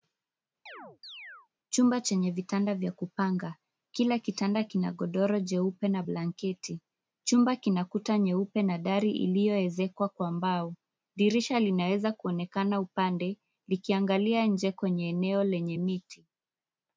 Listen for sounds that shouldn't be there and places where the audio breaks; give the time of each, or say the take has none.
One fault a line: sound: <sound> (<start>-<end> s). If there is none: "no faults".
sound: chirp (0.7-1.5 s)